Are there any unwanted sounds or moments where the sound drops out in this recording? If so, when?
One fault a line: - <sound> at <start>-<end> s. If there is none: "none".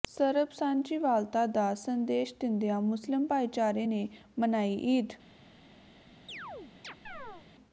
- chirp at 6.3-7.5 s